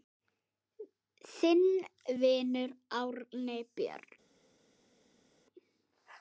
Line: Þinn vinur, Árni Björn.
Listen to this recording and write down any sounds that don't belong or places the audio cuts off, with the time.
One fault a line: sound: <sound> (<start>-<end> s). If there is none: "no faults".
no faults